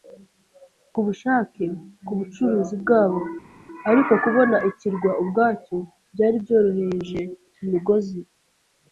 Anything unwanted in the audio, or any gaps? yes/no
no